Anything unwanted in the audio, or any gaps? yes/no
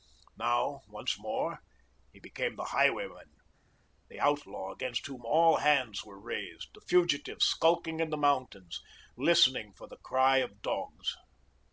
no